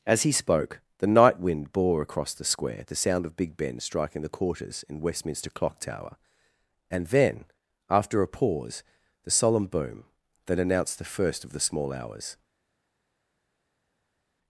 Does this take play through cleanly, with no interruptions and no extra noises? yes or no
yes